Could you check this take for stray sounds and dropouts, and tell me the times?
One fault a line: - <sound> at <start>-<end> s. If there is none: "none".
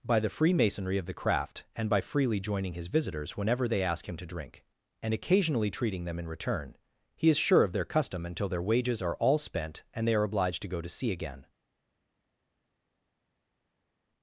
none